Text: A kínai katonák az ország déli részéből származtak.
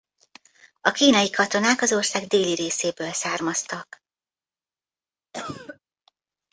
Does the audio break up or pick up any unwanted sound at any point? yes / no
yes